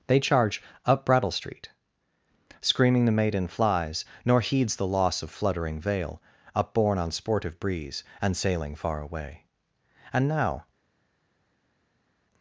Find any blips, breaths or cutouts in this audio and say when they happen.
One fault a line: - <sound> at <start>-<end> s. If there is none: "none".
none